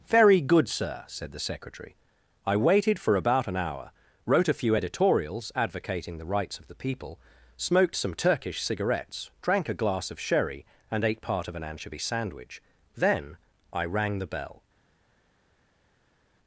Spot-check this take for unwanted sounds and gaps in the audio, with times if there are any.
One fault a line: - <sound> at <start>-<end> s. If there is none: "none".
none